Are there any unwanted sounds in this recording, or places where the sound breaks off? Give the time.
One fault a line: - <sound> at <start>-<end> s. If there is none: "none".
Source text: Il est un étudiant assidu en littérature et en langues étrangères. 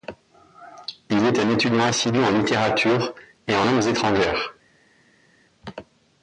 none